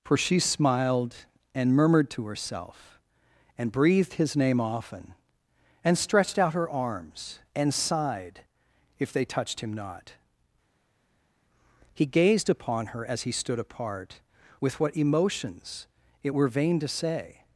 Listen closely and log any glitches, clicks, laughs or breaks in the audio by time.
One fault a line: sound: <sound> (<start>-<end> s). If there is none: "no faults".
no faults